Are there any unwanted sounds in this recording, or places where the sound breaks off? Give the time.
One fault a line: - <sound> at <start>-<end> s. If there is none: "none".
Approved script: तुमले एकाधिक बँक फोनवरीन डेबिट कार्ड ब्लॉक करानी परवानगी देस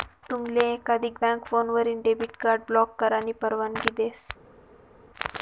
none